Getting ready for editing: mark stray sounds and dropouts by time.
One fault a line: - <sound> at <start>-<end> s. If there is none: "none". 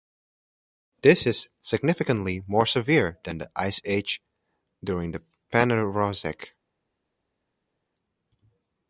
none